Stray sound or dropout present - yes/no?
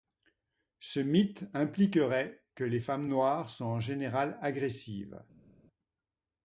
no